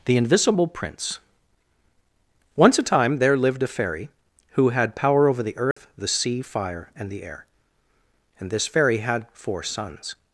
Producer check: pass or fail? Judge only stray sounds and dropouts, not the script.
fail